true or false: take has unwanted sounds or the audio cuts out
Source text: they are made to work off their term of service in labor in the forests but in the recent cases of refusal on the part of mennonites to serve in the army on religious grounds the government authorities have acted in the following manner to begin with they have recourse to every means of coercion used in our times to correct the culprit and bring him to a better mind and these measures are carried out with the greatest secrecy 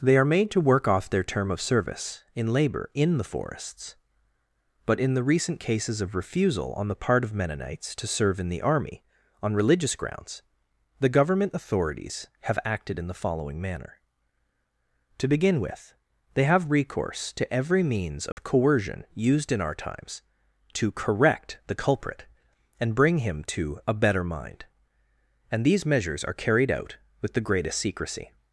true